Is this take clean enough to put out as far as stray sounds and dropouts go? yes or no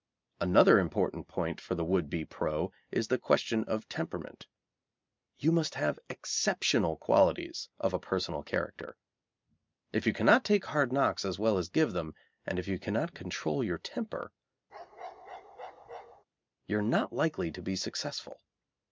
no